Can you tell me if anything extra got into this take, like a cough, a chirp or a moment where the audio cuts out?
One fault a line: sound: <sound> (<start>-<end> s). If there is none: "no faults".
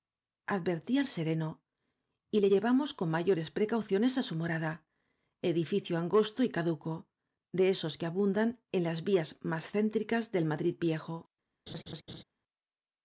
sound: laugh (11.7-12.2 s)